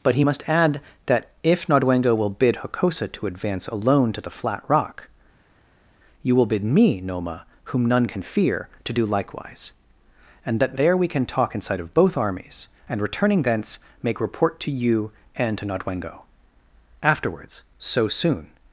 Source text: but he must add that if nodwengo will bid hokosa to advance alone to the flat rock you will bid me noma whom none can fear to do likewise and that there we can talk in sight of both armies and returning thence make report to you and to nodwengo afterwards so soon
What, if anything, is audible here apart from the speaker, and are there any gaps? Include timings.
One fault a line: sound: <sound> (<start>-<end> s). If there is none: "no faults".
no faults